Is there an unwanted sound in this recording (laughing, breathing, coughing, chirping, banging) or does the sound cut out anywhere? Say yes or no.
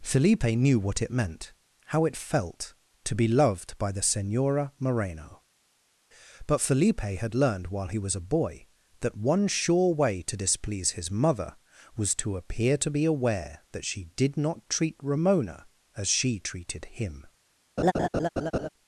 yes